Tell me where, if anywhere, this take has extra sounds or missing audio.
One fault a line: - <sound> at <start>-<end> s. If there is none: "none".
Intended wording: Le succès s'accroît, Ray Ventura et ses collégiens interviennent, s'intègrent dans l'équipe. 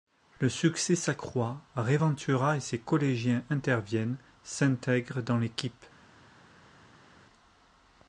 none